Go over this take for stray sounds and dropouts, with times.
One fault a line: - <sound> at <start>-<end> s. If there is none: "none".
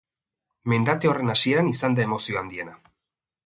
none